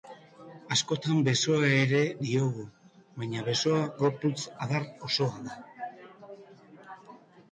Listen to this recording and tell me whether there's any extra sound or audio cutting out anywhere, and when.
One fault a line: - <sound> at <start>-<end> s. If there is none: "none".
none